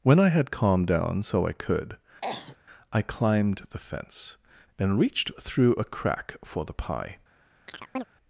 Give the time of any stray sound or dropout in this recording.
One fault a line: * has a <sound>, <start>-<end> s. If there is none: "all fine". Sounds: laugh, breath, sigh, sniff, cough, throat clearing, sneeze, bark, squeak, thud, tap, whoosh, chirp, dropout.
* has a cough, 2.2-2.6 s
* has a chirp, 7.7-8.0 s